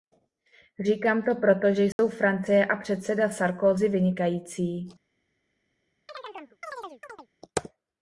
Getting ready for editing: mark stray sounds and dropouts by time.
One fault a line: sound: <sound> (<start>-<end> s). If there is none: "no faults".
sound: dropout (1.9-2.0 s)
sound: chirp (6.1-7.3 s)